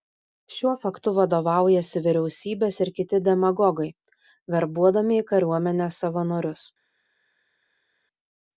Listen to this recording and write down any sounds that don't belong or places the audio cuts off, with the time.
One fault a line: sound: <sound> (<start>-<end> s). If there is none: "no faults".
no faults